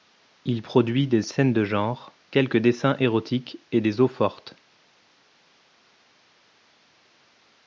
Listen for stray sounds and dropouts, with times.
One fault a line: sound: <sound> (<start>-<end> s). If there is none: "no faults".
no faults